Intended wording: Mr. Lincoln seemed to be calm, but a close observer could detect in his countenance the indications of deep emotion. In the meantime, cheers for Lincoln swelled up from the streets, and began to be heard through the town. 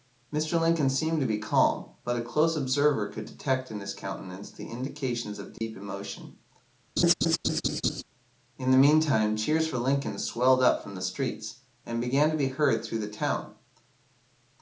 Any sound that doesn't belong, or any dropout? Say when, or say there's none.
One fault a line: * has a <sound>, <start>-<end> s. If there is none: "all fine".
* has a dropout, 5.6-5.6 s
* has a laugh, 7.0-8.0 s